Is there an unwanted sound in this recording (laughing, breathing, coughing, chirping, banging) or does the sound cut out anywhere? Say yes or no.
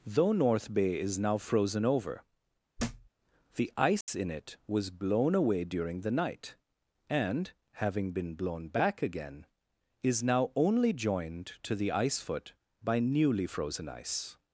yes